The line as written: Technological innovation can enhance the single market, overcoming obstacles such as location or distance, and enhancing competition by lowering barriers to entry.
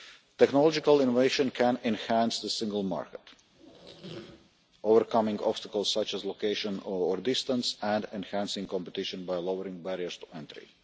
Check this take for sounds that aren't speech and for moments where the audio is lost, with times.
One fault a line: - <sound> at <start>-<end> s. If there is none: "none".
- squeak at 3.5-4.5 s